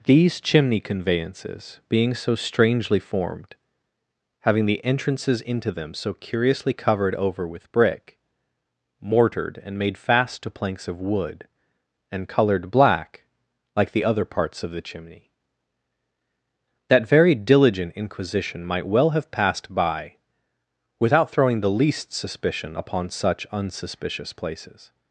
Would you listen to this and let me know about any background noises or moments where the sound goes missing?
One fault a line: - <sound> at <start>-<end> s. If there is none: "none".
none